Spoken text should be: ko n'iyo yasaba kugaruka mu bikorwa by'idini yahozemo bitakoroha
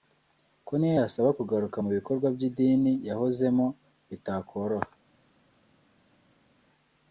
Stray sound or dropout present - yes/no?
no